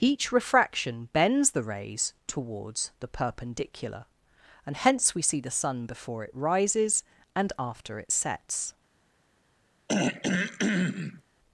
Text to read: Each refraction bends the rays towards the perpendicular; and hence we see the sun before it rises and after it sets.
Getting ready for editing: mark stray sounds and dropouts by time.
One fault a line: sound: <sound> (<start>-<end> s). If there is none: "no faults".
sound: throat clearing (9.9-11.2 s)